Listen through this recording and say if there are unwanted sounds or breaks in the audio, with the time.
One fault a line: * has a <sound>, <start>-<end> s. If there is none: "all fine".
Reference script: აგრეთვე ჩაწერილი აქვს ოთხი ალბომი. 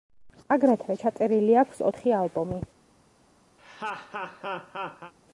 * has a laugh, 3.6-5.1 s